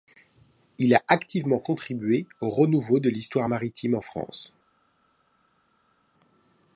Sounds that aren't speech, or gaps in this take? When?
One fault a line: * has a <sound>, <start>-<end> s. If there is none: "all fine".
all fine